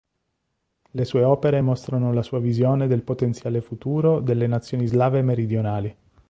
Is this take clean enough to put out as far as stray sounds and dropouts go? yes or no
yes